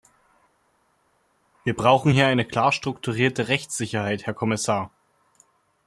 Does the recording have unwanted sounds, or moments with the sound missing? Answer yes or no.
no